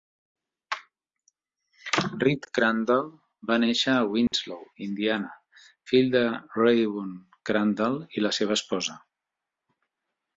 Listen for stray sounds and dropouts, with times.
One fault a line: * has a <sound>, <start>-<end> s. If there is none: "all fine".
* has a dropout, 4.3-4.3 s